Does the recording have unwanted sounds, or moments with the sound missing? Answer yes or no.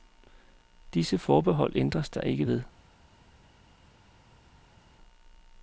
no